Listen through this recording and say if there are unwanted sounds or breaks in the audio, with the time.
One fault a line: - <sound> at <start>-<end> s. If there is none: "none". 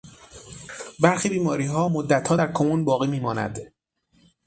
none